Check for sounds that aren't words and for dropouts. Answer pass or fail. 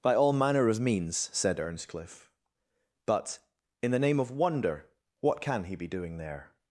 pass